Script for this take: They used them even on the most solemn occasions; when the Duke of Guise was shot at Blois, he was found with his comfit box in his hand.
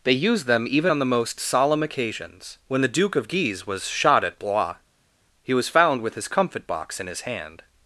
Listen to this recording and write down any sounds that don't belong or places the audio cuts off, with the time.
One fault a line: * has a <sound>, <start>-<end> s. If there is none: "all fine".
all fine